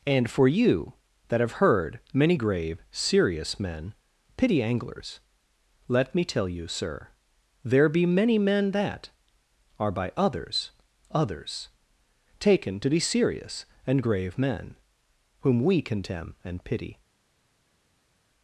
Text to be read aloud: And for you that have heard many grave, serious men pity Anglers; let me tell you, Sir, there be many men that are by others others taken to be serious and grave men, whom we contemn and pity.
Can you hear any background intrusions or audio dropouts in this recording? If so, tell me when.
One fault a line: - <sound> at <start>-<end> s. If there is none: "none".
none